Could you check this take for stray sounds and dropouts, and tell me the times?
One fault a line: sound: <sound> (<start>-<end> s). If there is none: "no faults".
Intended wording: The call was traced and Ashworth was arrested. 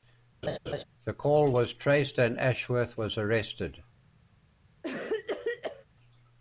sound: laugh (0.4-0.8 s)
sound: cough (4.8-5.9 s)